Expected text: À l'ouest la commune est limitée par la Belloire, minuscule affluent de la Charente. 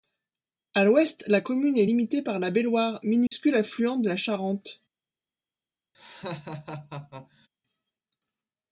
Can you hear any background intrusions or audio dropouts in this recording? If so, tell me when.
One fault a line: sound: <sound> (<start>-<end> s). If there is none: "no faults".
sound: dropout (3.3-3.3 s)
sound: laugh (5.9-7.5 s)